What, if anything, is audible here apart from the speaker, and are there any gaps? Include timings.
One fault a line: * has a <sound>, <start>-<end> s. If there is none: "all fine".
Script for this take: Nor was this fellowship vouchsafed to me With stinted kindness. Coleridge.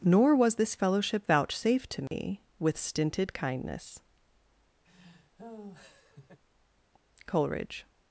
* has a dropout, 2.1-2.1 s
* has a laugh, 4.8-6.4 s